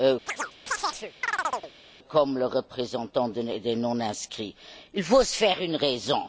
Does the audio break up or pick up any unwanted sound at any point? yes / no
yes